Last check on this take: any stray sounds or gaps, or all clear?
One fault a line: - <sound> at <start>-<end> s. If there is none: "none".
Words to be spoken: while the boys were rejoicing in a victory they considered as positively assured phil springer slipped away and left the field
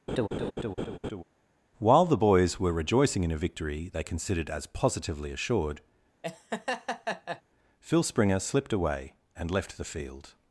- laugh at 0.1-1.2 s
- laugh at 6.2-7.4 s